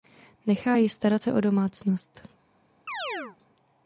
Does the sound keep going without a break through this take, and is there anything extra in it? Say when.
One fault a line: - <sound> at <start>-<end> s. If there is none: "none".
- chirp at 2.9-3.4 s